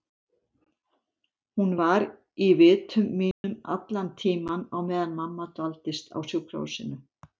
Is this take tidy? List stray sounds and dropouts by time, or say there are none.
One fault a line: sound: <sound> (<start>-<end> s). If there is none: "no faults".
sound: dropout (3.3-3.4 s)